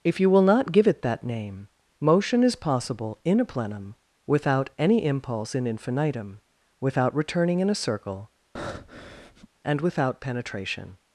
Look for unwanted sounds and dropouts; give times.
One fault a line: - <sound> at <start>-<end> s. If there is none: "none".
- breath at 8.6-9.5 s